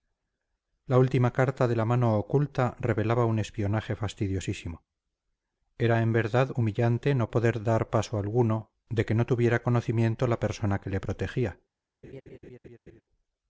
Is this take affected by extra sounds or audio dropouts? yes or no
yes